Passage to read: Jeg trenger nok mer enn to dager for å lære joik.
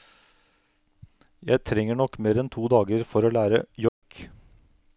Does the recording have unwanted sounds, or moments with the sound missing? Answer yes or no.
yes